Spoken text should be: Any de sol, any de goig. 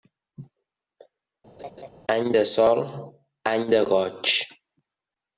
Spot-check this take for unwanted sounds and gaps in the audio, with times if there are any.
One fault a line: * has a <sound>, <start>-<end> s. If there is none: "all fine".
* has a laugh, 1.6-1.9 s